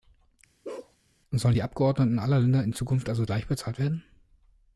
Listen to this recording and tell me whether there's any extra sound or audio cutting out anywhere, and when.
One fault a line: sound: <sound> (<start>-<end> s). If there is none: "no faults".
sound: bark (0.6-1.0 s)